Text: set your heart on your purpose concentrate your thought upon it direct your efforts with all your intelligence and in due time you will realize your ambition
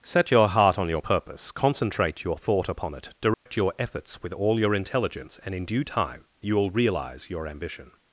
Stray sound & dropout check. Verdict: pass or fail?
fail